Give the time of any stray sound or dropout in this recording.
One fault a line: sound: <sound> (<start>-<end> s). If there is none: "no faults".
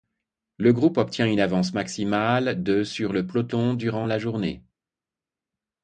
no faults